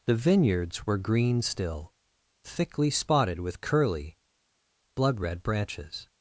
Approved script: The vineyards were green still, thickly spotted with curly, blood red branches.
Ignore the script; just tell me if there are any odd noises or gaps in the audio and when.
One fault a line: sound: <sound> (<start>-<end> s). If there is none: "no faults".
no faults